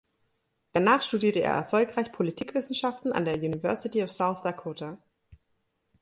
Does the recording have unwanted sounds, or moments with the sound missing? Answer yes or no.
no